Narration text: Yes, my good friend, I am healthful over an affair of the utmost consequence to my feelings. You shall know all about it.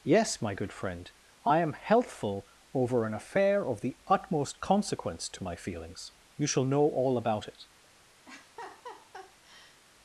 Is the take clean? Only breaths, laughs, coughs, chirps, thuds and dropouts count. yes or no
no